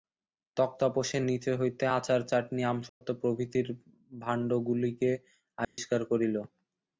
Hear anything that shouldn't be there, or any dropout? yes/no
yes